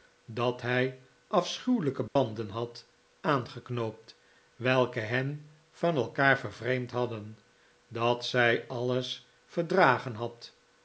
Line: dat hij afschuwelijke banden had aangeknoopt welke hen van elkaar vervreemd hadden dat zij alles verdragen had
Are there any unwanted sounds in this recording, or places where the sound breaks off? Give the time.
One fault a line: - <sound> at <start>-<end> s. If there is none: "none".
- dropout at 2.1-2.2 s